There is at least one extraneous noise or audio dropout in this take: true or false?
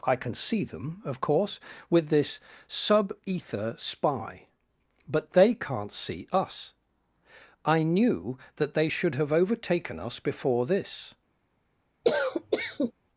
true